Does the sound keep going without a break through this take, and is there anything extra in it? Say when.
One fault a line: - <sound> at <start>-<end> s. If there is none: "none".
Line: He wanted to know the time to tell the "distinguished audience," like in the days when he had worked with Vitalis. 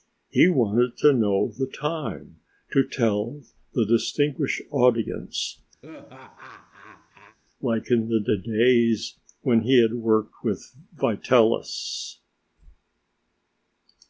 - laugh at 5.8-7.4 s